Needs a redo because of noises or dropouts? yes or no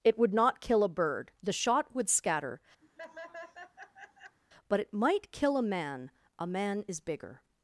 yes